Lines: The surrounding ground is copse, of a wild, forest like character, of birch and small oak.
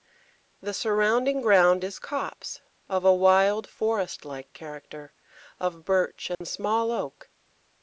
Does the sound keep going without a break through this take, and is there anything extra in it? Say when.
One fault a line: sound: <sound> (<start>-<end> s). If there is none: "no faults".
sound: dropout (6.3-6.4 s)